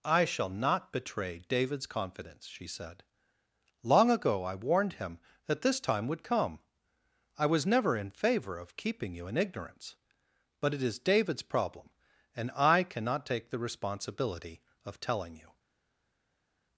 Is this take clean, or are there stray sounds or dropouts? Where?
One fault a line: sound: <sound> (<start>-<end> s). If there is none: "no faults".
no faults